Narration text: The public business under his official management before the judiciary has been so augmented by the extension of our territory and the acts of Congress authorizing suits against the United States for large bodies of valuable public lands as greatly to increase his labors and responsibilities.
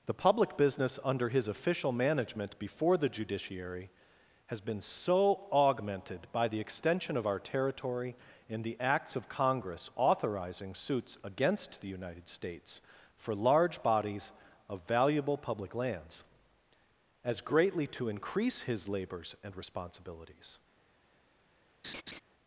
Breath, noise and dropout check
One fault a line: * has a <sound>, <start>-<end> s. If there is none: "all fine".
* has a laugh, 21.8-22.2 s